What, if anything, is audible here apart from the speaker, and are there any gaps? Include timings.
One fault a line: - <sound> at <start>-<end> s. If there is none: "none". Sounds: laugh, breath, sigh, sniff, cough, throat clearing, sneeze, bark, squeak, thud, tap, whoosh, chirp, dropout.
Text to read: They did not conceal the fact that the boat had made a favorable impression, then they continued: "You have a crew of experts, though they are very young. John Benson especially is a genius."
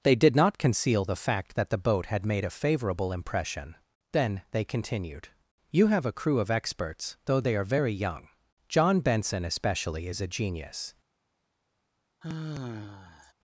- sigh at 12.2-13.3 s